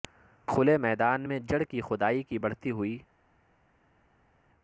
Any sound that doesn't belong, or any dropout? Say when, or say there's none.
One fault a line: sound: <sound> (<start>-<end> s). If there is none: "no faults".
no faults